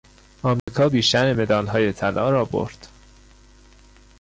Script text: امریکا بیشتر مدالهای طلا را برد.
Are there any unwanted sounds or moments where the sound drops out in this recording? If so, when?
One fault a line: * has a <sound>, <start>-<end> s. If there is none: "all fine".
* has a dropout, 0.6-0.7 s